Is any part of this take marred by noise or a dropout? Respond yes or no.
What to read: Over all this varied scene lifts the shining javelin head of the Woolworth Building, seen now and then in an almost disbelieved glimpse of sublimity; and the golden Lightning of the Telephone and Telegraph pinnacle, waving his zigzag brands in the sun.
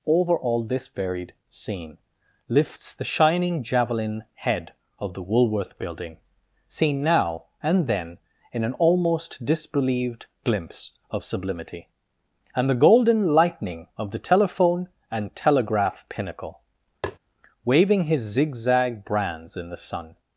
yes